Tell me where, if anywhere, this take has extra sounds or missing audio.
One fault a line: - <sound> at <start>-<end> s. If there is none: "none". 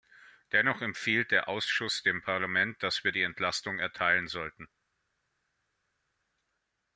none